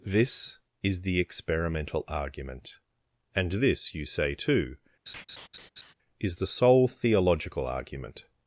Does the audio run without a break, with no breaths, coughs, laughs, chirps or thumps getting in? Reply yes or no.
no